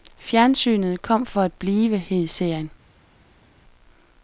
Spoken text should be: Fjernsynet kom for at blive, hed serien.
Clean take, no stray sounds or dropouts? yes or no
yes